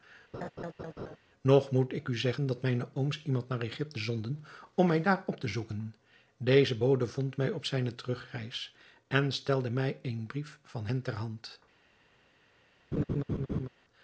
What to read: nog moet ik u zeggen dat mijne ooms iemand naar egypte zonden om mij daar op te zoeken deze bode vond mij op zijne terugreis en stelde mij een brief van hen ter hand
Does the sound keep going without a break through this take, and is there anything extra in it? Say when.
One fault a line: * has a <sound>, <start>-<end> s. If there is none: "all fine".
* has a laugh, 0.3-1.2 s
* has a laugh, 12.9-13.7 s